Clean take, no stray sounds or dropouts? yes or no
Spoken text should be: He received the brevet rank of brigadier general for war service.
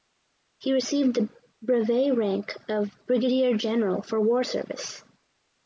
yes